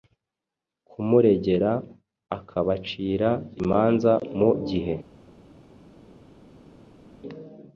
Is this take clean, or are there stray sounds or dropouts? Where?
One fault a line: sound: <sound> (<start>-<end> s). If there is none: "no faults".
no faults